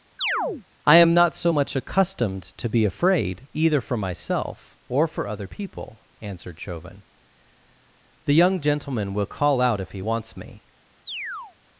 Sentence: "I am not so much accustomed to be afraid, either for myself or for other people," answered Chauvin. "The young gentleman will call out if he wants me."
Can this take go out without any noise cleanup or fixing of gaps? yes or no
no